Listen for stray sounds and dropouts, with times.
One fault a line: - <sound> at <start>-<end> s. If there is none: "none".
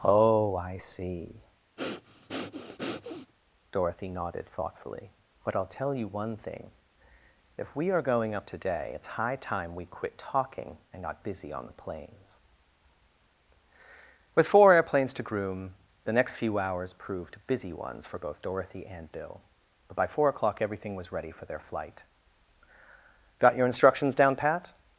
- breath at 1.8-3.3 s